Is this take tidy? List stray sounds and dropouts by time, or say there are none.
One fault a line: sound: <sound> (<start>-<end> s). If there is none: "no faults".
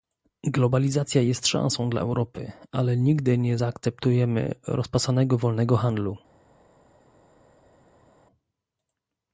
no faults